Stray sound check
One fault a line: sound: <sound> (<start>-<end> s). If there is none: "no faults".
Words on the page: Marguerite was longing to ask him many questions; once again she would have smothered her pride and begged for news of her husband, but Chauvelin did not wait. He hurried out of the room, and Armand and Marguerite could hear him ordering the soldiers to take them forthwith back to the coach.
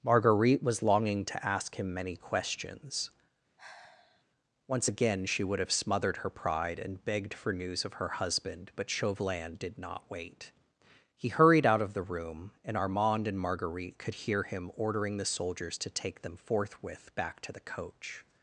sound: sigh (3.6-4.2 s)